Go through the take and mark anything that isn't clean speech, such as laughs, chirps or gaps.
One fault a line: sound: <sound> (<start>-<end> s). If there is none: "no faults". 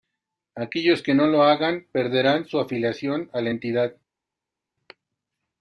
no faults